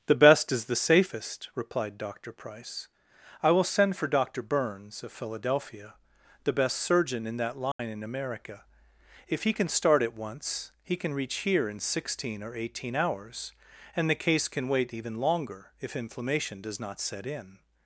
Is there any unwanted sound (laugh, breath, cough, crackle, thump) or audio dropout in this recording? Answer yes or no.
yes